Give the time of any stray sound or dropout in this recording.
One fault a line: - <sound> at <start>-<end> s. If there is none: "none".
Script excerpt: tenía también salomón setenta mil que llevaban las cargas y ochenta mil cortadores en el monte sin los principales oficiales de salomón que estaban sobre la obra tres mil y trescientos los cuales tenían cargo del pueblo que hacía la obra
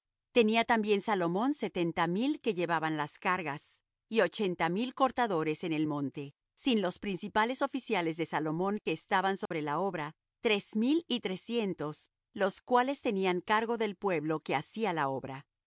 - dropout at 9.5-9.5 s